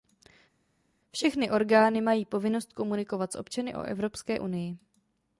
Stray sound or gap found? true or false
false